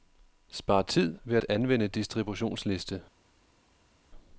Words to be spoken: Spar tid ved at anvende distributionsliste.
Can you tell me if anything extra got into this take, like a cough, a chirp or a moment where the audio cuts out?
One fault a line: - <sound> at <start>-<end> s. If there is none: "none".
none